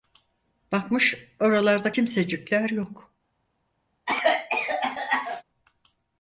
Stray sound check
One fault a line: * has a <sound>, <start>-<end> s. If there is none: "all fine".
* has a cough, 4.1-5.4 s